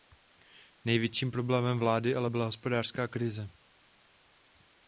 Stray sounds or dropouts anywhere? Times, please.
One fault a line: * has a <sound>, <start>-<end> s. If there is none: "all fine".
all fine